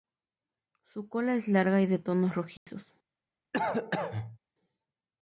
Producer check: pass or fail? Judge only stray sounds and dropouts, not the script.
fail